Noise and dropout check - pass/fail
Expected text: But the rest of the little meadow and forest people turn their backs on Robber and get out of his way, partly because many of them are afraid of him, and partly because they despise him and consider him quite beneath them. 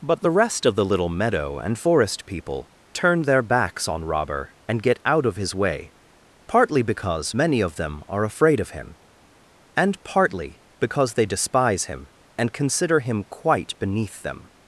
pass